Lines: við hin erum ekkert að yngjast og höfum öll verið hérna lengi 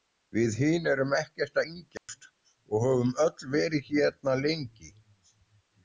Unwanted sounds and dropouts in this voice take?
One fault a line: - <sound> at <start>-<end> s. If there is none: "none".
- dropout at 2.0-2.1 s